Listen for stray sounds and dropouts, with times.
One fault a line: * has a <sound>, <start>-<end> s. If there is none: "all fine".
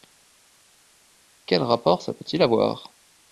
all fine